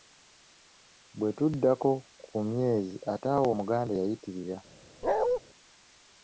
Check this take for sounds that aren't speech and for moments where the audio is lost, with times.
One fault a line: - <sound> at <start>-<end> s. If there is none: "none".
- bark at 5.0-5.4 s